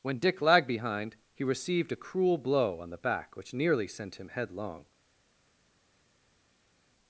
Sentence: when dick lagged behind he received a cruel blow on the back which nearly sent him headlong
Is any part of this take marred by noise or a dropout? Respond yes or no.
no